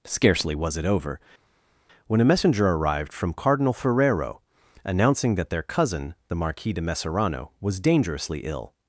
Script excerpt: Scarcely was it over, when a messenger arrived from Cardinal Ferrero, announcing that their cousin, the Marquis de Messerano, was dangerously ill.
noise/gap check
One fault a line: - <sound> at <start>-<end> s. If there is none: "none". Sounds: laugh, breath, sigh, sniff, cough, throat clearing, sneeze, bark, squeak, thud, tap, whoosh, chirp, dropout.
none